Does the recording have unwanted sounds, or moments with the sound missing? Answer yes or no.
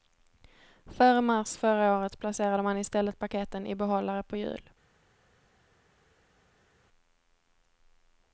no